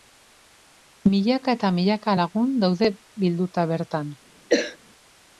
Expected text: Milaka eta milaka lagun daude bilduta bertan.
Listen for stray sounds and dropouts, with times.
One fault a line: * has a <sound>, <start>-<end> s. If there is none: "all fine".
* has a cough, 4.5-4.8 s